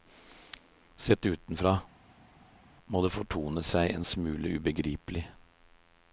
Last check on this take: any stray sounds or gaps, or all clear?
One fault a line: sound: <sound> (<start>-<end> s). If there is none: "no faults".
no faults